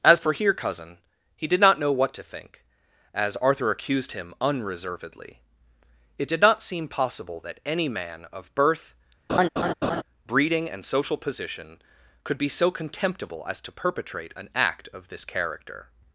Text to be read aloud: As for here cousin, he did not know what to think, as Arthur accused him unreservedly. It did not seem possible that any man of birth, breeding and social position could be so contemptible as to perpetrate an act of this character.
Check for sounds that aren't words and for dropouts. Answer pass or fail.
fail